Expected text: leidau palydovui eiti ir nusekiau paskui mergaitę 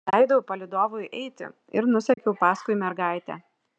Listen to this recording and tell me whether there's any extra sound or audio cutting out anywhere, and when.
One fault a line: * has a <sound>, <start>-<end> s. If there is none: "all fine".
* has a dropout, 2.1-2.2 s